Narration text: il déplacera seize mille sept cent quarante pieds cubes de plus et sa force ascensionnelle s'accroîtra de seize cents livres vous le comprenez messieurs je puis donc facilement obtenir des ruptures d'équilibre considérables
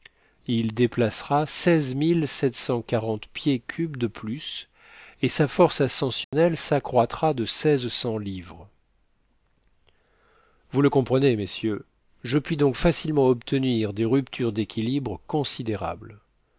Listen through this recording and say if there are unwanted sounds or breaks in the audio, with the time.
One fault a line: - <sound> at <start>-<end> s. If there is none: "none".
- dropout at 6.2-6.3 s